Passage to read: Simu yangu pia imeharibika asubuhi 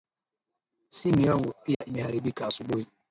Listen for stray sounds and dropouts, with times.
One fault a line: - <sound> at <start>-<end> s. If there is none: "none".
- dropout at 1.7-1.8 s